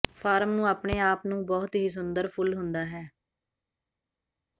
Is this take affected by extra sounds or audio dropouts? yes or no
no